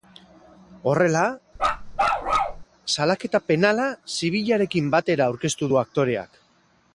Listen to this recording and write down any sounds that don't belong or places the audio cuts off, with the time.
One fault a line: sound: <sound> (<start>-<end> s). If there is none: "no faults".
sound: bark (1.6-2.6 s)